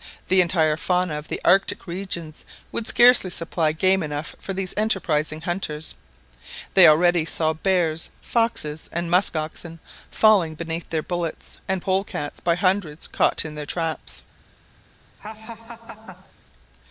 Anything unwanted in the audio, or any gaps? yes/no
yes